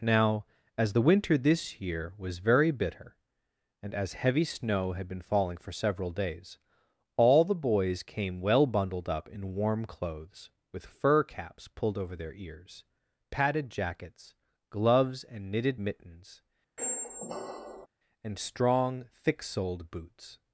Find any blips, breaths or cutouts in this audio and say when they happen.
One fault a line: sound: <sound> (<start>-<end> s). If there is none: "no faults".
sound: squeak (16.8-17.9 s)